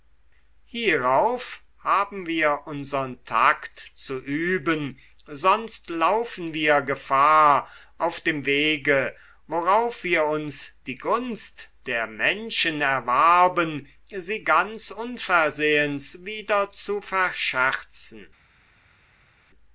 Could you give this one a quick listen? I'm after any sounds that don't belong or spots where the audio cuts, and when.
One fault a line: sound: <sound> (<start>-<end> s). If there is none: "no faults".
no faults